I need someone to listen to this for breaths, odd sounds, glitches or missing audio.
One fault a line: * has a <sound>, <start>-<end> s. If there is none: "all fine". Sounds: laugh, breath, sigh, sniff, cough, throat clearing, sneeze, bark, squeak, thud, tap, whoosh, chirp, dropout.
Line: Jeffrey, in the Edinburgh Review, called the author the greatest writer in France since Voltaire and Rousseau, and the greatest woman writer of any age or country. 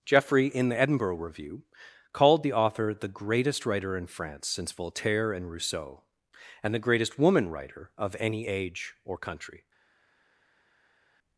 all fine